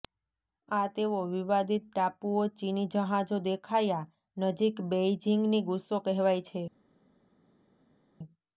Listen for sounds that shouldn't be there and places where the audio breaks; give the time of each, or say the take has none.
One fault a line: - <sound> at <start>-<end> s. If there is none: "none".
none